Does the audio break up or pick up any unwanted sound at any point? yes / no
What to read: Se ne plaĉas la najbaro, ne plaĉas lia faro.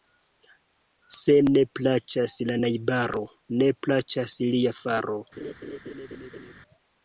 yes